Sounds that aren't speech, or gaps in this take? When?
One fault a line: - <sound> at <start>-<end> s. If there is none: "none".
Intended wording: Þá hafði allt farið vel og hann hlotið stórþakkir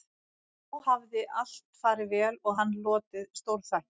none